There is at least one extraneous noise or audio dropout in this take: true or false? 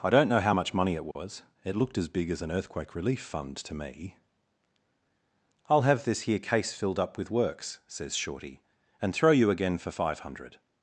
true